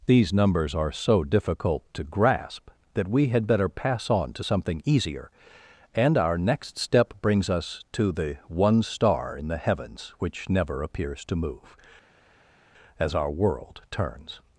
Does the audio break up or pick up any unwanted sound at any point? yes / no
no